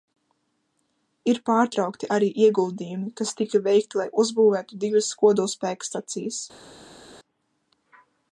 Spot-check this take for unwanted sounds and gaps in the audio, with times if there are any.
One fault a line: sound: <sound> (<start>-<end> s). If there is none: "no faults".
no faults